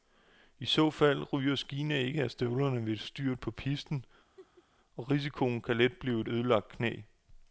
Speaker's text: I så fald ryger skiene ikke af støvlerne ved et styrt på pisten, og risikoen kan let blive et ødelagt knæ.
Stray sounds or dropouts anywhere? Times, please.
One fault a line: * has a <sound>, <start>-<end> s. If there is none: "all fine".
* has a laugh, 4.4-4.7 s